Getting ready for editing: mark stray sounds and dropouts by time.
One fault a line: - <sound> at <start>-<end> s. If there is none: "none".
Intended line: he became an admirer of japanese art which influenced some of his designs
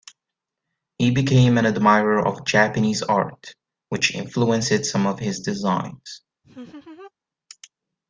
- laugh at 6.4-7.1 s